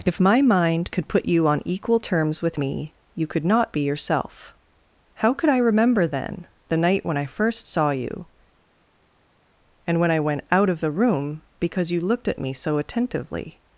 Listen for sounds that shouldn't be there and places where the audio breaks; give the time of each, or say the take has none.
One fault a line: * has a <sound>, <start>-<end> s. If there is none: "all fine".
all fine